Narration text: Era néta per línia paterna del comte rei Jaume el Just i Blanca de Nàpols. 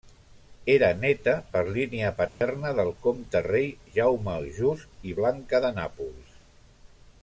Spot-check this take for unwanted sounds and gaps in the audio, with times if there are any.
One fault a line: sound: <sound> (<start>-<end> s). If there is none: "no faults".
sound: dropout (2.3-2.4 s)